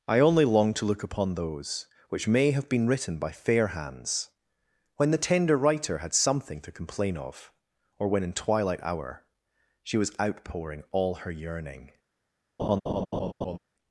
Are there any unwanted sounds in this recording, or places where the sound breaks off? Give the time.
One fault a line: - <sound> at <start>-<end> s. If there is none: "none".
- laugh at 12.6-13.6 s